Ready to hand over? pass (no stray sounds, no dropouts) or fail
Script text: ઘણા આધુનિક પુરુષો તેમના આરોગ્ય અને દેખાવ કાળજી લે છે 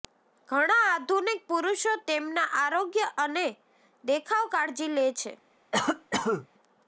fail